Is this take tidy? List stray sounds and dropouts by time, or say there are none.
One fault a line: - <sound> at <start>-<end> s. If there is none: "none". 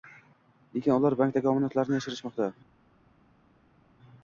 none